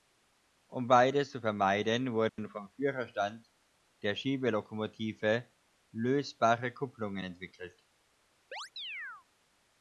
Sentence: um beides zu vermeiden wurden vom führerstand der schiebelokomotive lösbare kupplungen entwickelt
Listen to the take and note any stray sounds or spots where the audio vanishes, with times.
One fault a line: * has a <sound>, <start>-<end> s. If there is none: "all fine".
* has a dropout, 2.3-2.4 s
* has a chirp, 8.5-9.3 s